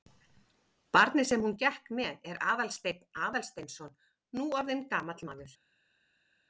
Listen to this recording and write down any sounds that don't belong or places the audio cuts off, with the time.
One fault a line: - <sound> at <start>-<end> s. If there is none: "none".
none